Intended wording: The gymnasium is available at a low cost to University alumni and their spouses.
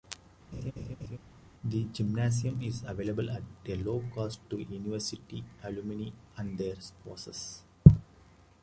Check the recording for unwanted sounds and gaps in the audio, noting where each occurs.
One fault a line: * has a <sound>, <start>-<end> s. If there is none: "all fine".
* has a laugh, 0.5-1.2 s